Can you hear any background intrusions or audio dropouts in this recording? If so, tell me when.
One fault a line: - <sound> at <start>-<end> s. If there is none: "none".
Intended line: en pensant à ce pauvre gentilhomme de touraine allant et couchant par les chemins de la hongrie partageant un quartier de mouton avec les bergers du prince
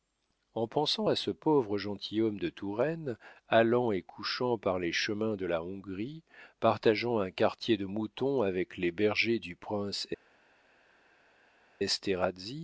none